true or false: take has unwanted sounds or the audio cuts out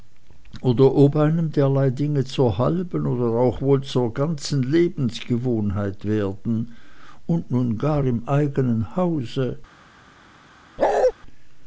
true